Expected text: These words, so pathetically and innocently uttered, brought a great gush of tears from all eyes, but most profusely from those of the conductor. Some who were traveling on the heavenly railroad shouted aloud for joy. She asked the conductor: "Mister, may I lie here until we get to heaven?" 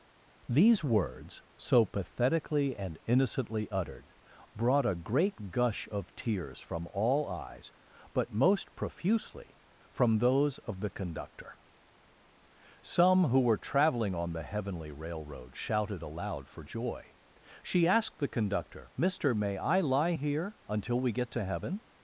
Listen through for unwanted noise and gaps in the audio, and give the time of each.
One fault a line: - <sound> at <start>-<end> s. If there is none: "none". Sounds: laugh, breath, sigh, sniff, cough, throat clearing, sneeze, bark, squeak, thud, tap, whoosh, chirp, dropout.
none